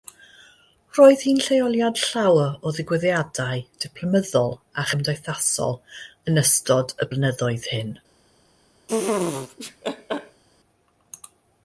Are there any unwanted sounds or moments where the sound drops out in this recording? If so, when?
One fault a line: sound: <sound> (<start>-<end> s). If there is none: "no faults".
sound: laugh (8.9-10.4 s)